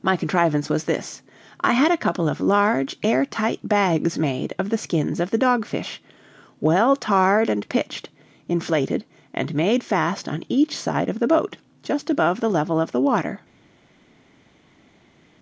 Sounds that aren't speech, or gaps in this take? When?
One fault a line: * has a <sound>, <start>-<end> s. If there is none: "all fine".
all fine